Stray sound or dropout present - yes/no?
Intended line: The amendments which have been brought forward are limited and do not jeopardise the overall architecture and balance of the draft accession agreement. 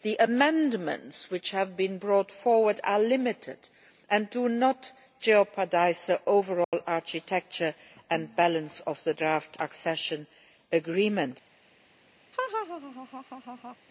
yes